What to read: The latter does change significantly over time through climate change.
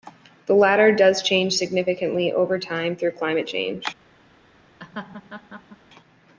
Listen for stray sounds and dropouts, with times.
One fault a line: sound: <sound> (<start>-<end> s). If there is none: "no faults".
sound: laugh (4.8-5.8 s)